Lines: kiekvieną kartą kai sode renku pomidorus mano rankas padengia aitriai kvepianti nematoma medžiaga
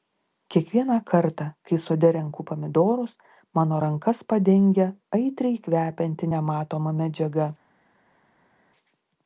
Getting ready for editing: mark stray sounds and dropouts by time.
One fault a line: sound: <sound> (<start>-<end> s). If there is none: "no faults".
no faults